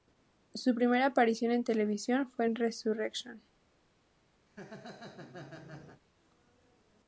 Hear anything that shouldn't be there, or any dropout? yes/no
yes